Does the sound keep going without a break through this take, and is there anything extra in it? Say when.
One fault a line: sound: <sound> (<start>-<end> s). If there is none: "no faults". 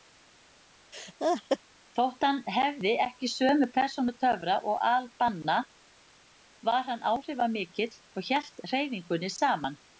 sound: laugh (0.9-1.6 s)